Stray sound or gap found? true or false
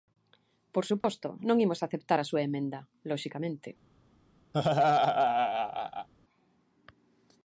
true